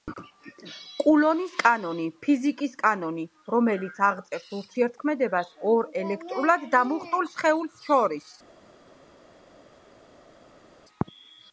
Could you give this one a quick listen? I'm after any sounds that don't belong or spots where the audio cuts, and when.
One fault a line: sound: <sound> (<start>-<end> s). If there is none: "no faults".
no faults